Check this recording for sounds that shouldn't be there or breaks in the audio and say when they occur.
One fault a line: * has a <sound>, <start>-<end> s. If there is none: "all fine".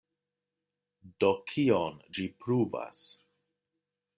all fine